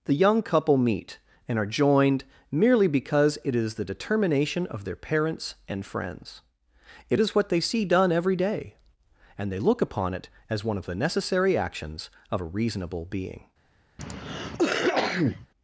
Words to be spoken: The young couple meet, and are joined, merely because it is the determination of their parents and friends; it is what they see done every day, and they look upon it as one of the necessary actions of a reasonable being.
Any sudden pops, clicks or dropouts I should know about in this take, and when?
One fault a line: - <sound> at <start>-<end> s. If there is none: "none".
- cough at 14.0-15.5 s